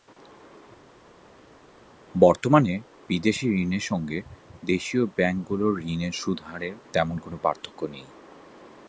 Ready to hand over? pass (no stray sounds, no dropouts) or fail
pass